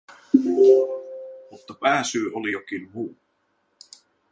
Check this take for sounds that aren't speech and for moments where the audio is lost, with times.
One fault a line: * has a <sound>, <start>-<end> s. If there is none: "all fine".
all fine